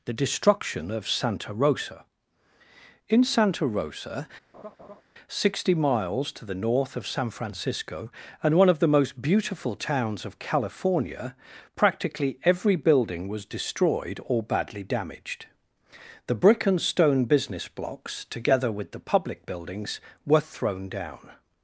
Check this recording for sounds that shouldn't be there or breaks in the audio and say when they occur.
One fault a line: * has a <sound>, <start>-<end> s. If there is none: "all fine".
* has a laugh, 4.5-5.0 s